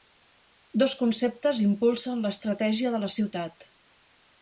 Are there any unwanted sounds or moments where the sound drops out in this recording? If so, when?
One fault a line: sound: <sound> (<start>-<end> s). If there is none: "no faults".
no faults